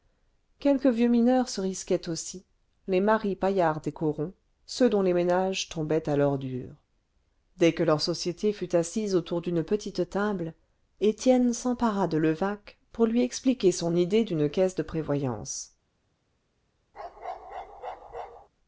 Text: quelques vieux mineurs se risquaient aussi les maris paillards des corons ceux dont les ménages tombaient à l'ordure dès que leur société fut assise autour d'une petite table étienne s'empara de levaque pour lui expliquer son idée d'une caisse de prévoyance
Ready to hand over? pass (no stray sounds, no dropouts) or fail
fail